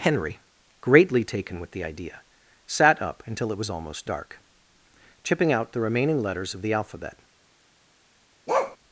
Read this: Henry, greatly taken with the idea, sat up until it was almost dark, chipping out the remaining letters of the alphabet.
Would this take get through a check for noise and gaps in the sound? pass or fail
fail